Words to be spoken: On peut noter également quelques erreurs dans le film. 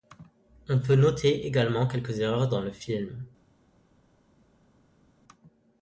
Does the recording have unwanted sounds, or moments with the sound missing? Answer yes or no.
no